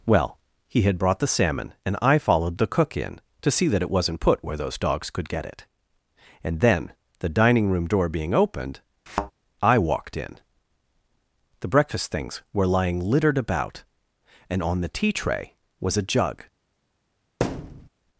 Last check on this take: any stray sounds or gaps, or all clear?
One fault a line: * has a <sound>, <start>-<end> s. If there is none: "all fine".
* has a thud, 9.1-9.3 s
* has a thud, 17.4-17.9 s